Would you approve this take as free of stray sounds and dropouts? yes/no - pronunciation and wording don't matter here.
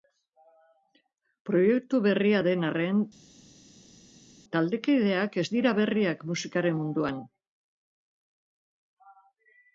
yes